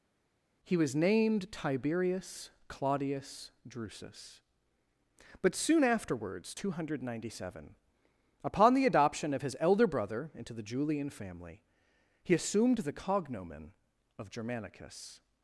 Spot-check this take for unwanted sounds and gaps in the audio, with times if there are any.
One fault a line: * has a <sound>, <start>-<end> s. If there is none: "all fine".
all fine